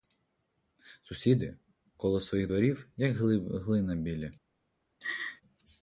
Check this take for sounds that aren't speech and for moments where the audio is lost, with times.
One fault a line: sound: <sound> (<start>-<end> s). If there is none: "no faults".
sound: laugh (5.0-5.4 s)